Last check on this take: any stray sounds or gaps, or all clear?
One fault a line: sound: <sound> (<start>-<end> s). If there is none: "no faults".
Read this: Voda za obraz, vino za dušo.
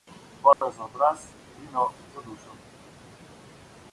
sound: dropout (0.5-0.6 s)